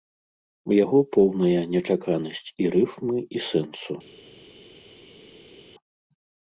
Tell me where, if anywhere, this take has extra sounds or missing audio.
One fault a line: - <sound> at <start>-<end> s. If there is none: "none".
none